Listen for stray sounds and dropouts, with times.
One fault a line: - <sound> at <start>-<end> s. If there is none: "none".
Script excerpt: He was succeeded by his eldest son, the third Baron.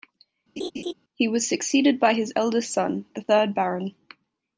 - laugh at 0.6-0.9 s